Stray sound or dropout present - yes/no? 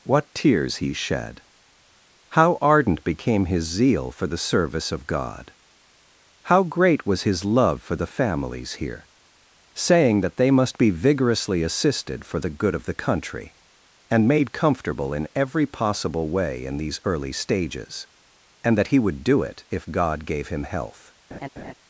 yes